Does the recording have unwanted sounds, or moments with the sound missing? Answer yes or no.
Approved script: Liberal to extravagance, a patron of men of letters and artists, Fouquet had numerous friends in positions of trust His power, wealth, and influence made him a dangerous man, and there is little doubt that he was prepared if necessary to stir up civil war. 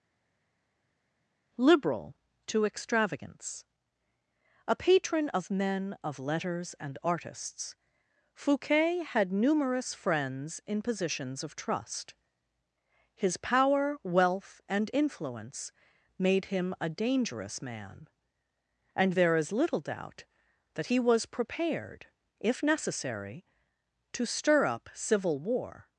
no